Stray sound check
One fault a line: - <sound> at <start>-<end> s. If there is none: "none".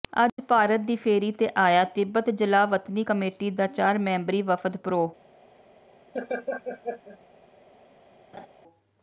- laugh at 6.1-7.2 s
- laugh at 8.3-8.5 s